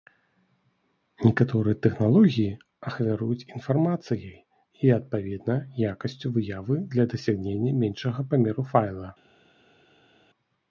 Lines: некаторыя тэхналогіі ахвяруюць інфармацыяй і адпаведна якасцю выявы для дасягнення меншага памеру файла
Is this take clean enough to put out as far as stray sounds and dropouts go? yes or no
yes